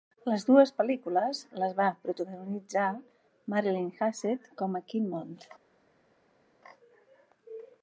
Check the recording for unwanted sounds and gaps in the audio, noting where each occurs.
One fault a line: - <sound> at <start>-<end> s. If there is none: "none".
none